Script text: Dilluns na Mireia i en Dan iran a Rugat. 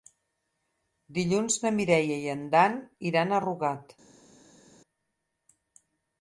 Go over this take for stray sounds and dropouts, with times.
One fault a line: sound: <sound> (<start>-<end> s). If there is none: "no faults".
no faults